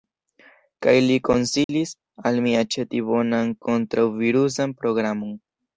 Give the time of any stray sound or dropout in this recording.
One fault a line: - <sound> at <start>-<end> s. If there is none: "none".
- dropout at 1.6-1.7 s